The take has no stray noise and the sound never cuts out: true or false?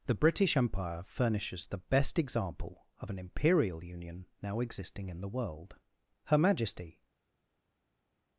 true